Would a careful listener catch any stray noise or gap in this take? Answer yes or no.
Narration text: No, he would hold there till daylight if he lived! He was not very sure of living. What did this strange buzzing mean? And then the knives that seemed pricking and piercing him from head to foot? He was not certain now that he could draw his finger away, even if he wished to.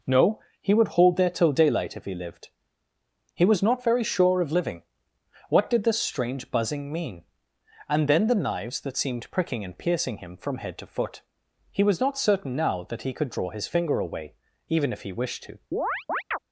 yes